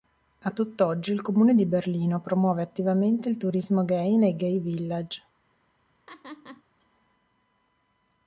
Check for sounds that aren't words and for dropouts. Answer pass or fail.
fail